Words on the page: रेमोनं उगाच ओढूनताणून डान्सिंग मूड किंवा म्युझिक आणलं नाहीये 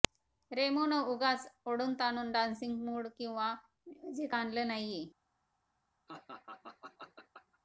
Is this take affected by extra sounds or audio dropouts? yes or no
yes